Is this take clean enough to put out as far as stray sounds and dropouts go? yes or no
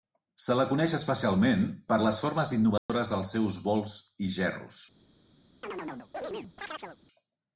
no